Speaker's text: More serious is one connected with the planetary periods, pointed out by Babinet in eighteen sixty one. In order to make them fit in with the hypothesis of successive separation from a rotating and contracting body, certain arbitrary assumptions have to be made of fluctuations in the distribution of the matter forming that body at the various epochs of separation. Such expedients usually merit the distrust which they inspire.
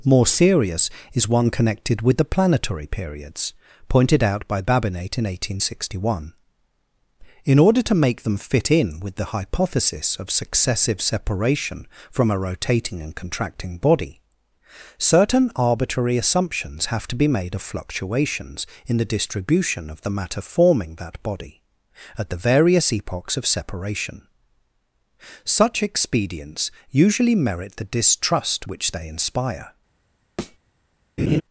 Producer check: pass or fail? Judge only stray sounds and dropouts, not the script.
fail